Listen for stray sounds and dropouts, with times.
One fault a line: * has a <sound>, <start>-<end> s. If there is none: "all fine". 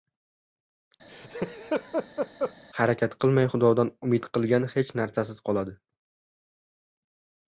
* has a laugh, 1.1-2.5 s